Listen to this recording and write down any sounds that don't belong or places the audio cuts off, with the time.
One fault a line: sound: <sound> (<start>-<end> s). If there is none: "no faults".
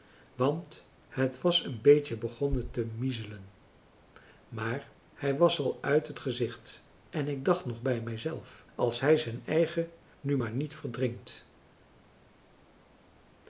no faults